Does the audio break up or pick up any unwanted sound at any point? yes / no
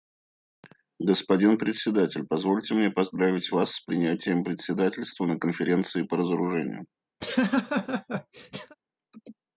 yes